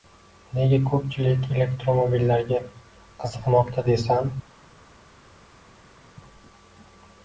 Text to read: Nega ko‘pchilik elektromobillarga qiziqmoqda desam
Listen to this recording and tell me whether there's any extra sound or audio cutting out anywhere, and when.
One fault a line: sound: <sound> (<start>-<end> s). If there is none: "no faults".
no faults